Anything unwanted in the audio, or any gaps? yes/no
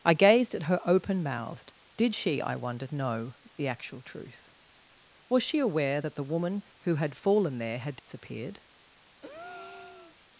yes